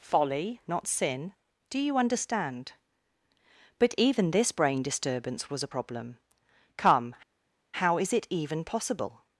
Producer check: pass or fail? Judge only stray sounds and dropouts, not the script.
pass